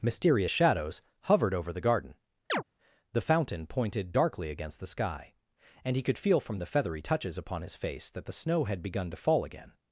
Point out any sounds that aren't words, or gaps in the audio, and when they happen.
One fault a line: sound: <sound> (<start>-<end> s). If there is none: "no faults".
sound: chirp (2.5-2.6 s)